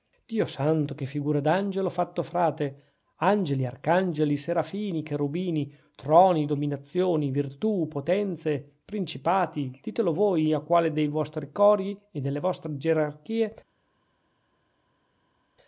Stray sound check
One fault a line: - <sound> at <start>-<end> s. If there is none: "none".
none